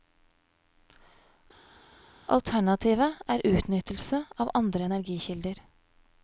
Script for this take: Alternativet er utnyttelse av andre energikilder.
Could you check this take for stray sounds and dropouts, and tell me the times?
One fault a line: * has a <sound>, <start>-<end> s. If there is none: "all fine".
all fine